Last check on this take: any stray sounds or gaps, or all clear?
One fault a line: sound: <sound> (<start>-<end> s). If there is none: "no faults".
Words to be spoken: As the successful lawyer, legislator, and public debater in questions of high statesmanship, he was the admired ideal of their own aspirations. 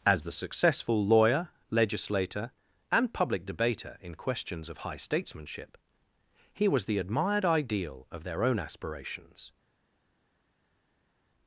no faults